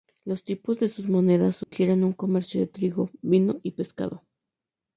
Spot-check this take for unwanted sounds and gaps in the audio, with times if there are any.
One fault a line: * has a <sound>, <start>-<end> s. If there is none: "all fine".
* has a dropout, 1.6-1.7 s